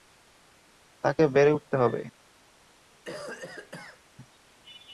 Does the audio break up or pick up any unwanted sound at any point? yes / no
yes